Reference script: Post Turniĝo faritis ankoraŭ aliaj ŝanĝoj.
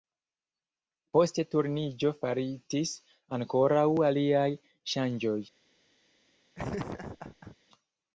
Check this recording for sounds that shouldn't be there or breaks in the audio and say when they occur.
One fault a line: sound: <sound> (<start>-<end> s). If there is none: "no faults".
sound: laugh (6.5-7.6 s)